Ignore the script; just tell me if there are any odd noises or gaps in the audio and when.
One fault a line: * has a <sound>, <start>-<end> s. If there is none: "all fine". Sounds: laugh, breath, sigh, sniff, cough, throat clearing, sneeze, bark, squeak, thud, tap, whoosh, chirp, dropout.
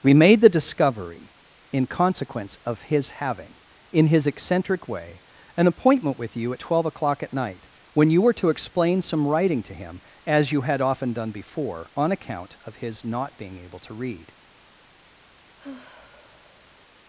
* has a sigh, 15.6-16.8 s